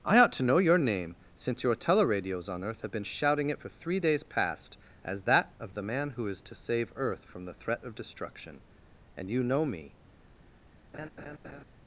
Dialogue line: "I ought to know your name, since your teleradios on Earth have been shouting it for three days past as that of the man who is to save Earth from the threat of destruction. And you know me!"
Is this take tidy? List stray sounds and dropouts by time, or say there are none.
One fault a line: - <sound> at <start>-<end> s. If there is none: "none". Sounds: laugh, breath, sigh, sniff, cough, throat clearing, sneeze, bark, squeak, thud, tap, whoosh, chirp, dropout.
- laugh at 10.9-11.6 s